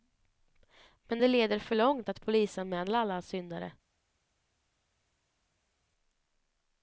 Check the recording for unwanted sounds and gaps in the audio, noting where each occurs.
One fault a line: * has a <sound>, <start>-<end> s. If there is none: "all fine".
all fine